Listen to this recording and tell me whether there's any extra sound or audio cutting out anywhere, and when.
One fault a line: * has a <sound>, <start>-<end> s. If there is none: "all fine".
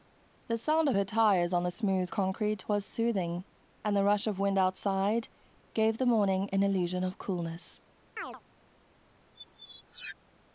* has a chirp, 8.2-8.4 s
* has a squeak, 9.3-10.2 s